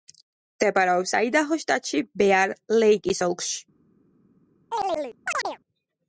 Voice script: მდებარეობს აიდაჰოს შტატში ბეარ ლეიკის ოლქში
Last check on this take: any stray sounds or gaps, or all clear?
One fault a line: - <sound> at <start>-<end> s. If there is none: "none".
- chirp at 4.7-5.6 s